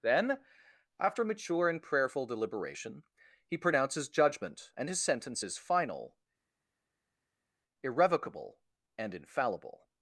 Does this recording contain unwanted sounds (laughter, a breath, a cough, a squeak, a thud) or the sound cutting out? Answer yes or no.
no